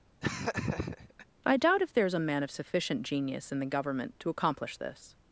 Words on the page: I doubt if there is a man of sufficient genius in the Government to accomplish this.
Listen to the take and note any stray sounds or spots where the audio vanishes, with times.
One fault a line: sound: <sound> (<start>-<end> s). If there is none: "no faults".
sound: laugh (0.2-1.3 s)